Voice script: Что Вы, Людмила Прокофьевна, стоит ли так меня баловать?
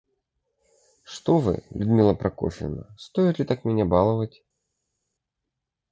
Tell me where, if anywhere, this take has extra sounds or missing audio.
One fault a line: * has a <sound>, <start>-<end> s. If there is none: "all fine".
all fine